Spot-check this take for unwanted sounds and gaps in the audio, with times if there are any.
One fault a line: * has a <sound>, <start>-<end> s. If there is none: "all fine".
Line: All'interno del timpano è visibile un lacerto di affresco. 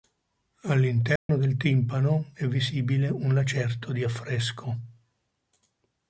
* has a dropout, 1.2-1.3 s